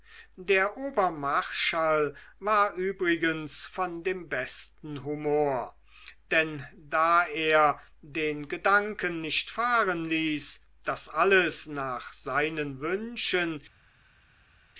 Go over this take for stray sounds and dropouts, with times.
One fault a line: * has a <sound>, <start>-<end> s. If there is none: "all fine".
all fine